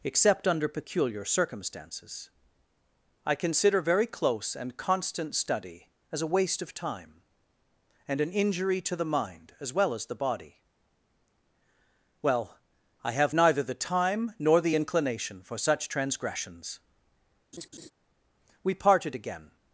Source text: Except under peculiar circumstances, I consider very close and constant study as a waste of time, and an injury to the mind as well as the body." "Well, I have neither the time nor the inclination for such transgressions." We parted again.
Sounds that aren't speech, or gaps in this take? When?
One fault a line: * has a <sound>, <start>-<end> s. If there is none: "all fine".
* has a laugh, 17.5-17.9 s